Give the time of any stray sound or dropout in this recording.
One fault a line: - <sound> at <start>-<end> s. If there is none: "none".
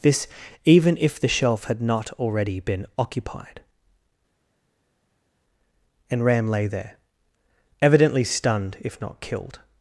none